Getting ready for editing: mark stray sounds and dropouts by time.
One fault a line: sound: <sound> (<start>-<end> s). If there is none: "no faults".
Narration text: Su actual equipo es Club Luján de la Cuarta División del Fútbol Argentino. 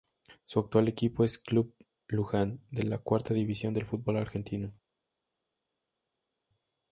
no faults